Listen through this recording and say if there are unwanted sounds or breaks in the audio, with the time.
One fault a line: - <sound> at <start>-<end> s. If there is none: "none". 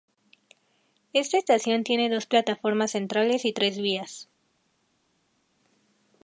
none